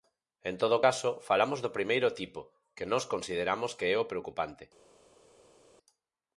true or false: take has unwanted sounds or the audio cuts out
false